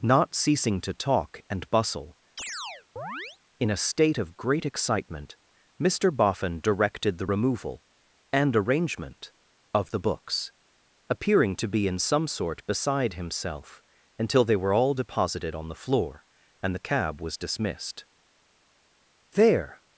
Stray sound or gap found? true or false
true